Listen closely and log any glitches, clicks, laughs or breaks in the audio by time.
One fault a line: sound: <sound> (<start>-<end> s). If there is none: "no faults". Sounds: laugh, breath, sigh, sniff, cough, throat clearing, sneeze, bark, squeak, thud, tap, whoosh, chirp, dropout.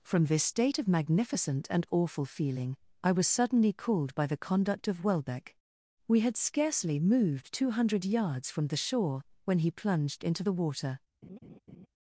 sound: laugh (11.2-11.9 s)